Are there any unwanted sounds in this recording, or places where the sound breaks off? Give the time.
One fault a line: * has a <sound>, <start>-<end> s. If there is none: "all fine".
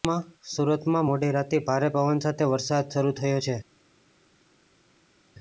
all fine